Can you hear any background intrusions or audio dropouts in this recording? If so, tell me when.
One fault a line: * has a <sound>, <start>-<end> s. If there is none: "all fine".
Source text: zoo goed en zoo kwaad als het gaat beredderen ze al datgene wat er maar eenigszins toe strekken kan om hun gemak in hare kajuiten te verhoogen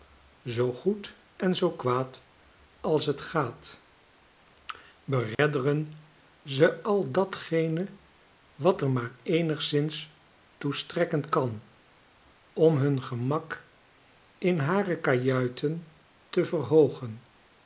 * has a dropout, 5.3-5.4 s